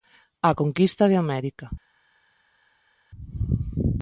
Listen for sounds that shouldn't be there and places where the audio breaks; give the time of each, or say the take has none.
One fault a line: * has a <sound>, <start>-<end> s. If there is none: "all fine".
all fine